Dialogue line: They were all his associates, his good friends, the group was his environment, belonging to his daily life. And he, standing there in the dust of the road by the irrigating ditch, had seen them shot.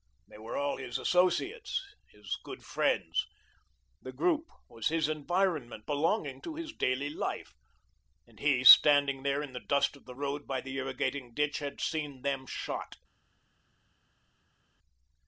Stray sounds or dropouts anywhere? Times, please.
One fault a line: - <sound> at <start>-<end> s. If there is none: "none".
none